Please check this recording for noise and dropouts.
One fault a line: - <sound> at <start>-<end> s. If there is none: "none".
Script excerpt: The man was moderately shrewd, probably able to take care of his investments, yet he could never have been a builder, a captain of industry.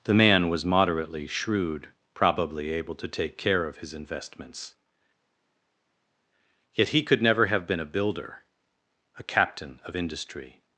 none